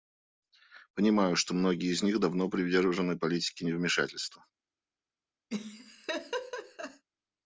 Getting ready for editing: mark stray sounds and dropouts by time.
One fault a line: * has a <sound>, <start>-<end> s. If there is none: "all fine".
* has a laugh, 5.5-7.0 s